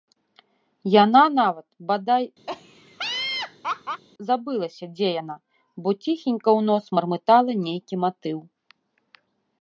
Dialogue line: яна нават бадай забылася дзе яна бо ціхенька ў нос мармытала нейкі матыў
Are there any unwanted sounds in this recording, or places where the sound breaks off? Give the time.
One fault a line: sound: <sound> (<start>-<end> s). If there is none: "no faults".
sound: laugh (2.5-4.0 s)